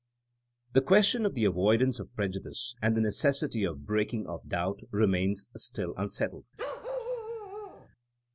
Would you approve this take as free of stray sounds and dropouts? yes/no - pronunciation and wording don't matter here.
no